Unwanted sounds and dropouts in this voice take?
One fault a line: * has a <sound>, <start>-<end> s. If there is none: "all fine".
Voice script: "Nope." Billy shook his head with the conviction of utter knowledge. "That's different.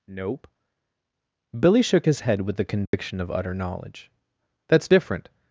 * has a dropout, 2.9-2.9 s